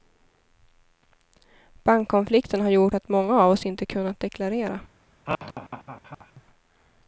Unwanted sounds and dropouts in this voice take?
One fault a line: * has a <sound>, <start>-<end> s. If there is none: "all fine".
* has a laugh, 5.3-6.4 s